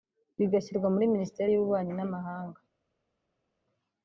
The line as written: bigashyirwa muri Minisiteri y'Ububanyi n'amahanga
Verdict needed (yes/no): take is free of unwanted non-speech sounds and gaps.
yes